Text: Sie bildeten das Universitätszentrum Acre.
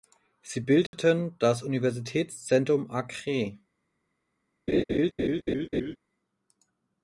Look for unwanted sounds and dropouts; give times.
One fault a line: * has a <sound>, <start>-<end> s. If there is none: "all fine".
* has a dropout, 0.9-0.9 s
* has a laugh, 4.7-6.0 s